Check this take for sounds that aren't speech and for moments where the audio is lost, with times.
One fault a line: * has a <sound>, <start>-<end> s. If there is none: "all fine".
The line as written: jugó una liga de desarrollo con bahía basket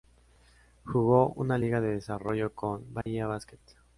* has a dropout, 3.0-3.1 s